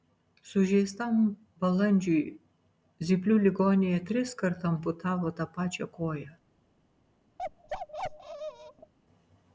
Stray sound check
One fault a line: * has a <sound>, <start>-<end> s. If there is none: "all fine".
* has a bark, 7.4-8.9 s